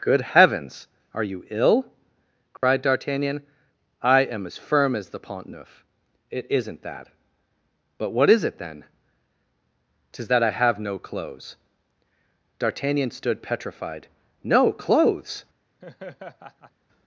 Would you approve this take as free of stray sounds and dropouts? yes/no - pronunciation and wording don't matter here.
no